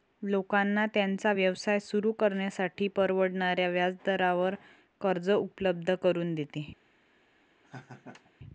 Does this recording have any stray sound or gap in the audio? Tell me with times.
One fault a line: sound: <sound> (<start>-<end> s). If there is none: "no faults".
sound: laugh (7.6-8.3 s)